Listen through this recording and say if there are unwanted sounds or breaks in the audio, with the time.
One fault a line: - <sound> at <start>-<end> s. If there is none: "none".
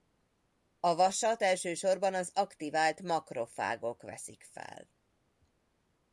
none